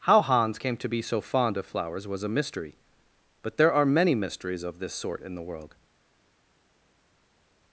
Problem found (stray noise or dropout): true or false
false